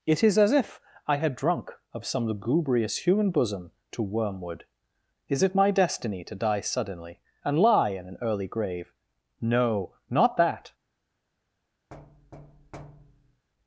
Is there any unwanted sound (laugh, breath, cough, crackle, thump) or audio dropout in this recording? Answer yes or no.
yes